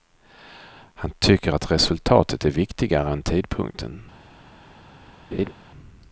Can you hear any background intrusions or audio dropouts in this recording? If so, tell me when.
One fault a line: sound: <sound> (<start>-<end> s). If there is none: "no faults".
sound: laugh (5.3-5.5 s)